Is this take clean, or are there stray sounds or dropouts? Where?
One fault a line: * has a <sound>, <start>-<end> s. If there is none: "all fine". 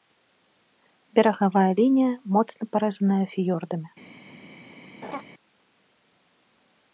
* has a laugh, 5.0-5.2 s